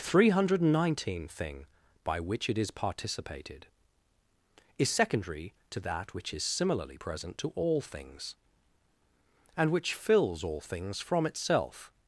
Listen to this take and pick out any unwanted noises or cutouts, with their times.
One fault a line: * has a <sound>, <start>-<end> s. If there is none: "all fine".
all fine